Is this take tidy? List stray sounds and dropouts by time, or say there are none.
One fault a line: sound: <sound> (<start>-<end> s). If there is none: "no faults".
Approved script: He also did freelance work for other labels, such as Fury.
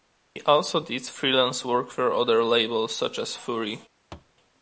sound: thud (4.1-4.3 s)